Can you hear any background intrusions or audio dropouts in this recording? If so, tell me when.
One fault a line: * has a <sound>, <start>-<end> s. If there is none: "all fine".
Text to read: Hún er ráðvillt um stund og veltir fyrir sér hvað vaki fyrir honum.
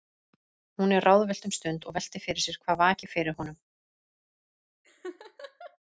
* has a laugh, 4.8-5.8 s